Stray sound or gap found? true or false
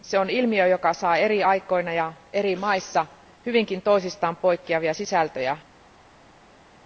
false